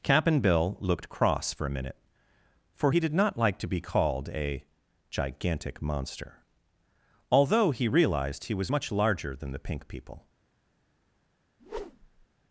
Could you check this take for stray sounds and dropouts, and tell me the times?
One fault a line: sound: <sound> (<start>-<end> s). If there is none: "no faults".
sound: whoosh (11.6-12.3 s)